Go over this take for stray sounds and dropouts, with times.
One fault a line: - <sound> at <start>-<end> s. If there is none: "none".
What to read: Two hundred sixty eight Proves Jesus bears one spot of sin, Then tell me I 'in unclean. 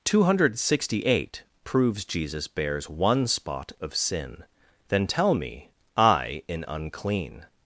none